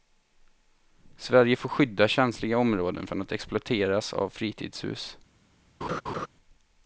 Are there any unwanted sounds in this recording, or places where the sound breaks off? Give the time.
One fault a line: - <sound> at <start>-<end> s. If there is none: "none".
- laugh at 5.8-6.3 s